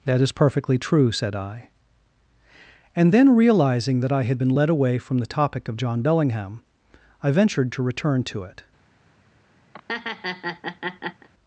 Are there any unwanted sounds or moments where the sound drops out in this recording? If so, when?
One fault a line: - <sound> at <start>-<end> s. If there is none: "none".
- laugh at 9.7-11.3 s